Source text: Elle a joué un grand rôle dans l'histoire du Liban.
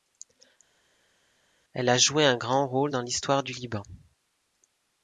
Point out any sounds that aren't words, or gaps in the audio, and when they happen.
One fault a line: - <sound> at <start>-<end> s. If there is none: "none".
none